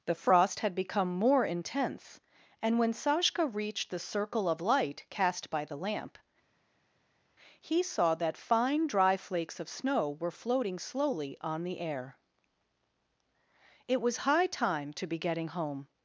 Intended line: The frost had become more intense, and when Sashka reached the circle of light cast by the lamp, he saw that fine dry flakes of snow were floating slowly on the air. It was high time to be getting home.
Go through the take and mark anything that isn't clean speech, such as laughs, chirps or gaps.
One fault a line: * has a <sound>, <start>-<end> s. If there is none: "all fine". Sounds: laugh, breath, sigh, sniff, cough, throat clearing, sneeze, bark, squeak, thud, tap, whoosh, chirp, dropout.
all fine